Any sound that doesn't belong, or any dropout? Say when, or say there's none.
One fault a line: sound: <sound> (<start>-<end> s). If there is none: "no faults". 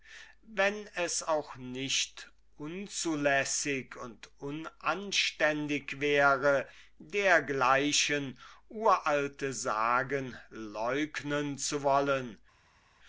no faults